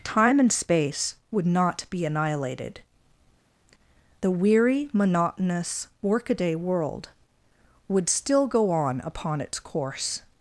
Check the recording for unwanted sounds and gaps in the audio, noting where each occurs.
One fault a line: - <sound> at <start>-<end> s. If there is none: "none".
none